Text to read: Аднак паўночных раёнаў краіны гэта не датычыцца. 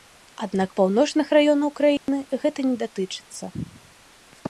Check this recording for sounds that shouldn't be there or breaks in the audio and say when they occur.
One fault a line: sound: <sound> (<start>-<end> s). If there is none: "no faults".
sound: dropout (2.0-2.1 s)